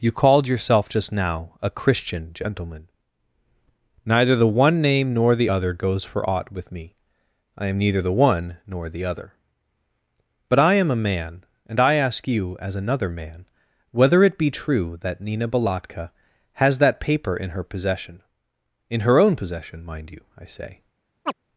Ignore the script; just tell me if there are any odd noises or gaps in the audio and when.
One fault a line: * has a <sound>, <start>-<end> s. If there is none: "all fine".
* has a chirp, 21.3-21.3 s